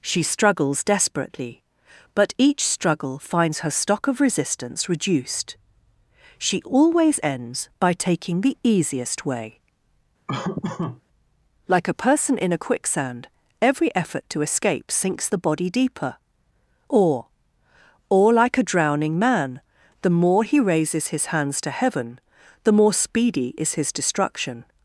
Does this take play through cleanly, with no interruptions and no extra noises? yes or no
no